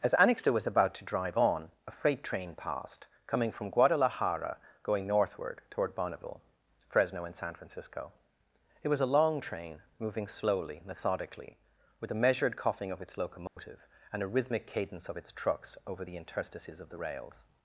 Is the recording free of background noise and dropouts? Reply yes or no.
no